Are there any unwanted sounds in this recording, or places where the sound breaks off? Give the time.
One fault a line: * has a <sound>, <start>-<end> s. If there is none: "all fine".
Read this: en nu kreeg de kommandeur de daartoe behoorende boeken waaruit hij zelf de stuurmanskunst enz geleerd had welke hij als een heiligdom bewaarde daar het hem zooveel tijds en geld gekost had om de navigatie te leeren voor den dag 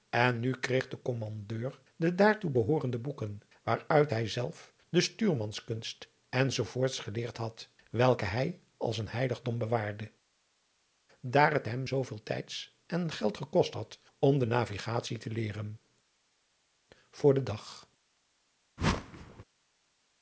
* has a whoosh, 18.8-19.4 s